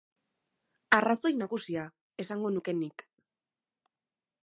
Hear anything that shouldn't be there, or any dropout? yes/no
no